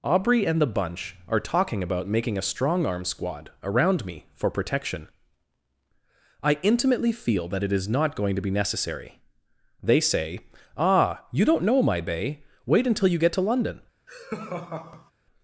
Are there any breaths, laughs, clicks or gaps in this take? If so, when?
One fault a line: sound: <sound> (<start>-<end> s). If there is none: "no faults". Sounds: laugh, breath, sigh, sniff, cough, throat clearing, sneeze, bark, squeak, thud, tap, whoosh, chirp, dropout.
sound: laugh (14.1-15.1 s)